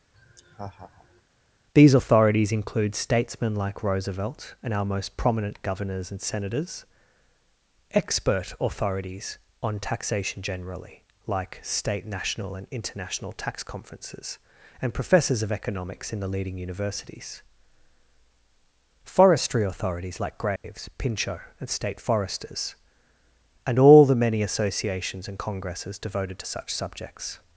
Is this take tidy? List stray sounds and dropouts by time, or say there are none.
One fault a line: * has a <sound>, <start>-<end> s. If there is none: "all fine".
* has a laugh, 0.1-1.2 s
* has a dropout, 20.6-20.6 s